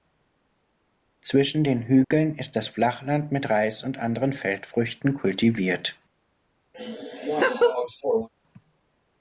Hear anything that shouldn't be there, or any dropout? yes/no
yes